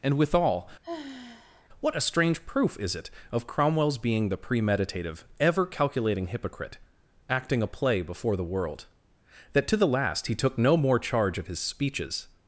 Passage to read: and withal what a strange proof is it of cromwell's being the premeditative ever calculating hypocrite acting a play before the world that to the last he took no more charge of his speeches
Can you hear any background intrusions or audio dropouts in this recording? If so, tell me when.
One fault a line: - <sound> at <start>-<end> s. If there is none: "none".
- sigh at 0.8-1.7 s